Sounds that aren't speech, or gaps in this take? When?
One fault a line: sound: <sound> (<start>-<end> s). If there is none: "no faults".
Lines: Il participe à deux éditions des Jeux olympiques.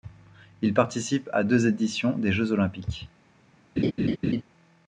sound: laugh (3.8-4.4 s)